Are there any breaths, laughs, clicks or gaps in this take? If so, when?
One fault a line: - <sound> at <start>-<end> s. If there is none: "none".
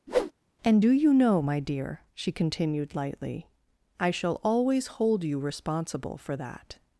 - whoosh at 0.1-0.3 s